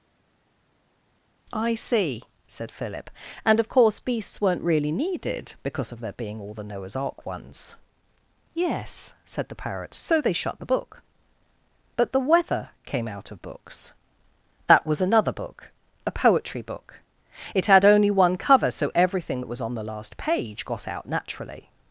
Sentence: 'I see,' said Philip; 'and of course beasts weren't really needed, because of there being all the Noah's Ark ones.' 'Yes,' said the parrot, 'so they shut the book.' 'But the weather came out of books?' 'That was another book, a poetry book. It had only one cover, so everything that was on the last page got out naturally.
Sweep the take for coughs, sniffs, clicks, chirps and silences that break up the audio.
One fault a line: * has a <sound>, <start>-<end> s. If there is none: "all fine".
all fine